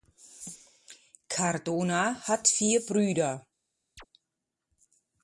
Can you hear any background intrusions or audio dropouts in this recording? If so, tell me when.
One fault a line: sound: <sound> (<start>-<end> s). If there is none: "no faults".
sound: chirp (4.0-4.1 s)